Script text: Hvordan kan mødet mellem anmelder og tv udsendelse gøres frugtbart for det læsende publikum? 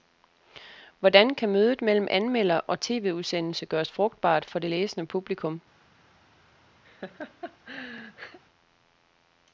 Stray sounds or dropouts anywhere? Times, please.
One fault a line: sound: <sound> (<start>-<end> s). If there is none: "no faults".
sound: laugh (6.8-8.4 s)